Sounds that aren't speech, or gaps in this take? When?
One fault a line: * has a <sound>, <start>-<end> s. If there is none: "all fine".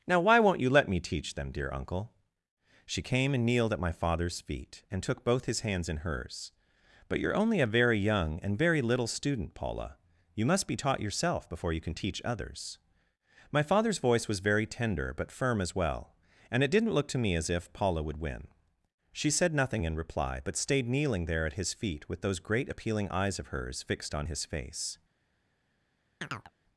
* has a chirp, 26.2-26.5 s